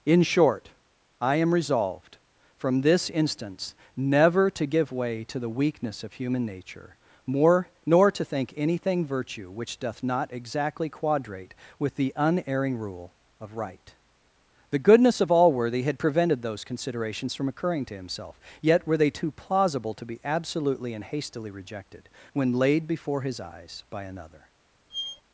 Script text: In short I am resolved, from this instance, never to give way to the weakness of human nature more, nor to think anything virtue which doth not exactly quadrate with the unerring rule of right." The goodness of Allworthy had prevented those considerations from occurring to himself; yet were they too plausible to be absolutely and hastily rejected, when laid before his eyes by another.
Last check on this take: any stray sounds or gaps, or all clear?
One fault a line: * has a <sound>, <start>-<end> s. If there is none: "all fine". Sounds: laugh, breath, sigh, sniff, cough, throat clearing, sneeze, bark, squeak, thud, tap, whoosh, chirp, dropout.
* has a squeak, 24.9-25.2 s